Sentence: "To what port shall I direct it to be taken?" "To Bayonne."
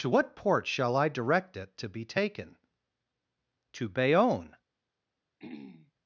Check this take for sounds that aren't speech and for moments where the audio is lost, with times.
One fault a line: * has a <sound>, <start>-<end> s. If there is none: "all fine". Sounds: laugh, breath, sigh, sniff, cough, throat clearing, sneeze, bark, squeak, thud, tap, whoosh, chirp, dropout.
* has a throat clearing, 5.4-5.9 s